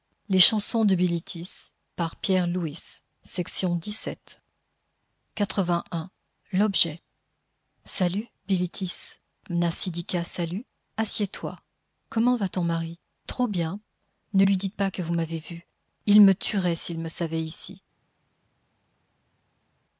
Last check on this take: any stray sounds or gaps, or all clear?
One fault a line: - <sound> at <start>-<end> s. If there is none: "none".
none